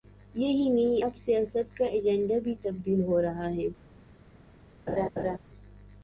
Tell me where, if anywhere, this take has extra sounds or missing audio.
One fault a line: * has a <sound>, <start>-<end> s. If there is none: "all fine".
* has a laugh, 4.9-5.4 s